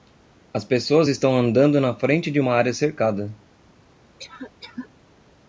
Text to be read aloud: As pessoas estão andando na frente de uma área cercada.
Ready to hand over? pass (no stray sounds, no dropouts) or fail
fail